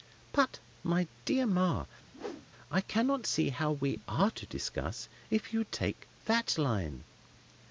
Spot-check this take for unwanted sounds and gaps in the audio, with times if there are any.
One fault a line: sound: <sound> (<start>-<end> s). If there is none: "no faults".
sound: whoosh (2.1-2.5 s)